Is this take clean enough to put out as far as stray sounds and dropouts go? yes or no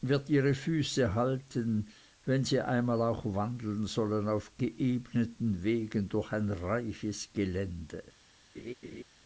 no